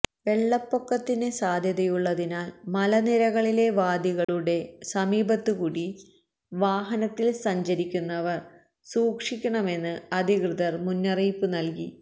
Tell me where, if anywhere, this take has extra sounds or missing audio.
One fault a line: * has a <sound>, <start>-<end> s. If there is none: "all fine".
* has a dropout, 4.2-4.3 s